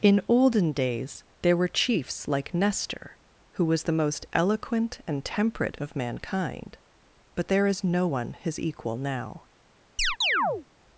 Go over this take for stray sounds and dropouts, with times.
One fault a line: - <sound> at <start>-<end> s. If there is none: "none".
- chirp at 10.0-10.7 s